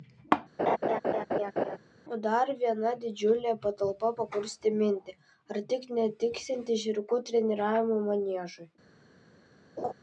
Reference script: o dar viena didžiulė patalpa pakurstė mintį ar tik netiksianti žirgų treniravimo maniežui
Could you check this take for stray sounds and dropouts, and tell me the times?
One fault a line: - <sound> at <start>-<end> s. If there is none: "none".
- laugh at 0.6-1.8 s
- laugh at 9.8-9.9 s